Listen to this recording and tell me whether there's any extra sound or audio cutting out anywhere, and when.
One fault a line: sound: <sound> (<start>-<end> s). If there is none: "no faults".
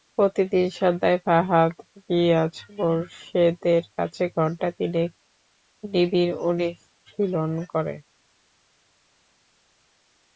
no faults